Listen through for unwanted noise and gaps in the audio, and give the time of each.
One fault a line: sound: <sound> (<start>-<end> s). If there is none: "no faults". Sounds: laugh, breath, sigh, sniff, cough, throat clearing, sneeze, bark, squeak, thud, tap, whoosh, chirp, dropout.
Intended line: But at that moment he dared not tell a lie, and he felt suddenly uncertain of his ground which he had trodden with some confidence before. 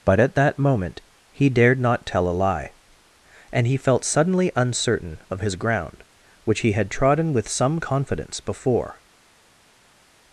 no faults